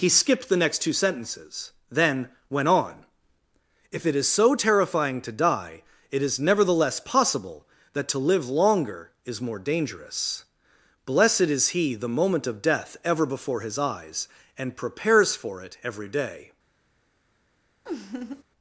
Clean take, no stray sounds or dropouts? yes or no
no